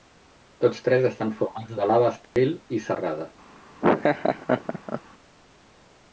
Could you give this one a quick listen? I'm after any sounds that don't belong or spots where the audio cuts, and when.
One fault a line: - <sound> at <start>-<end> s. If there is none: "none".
- dropout at 2.2-2.4 s
- laugh at 3.8-5.0 s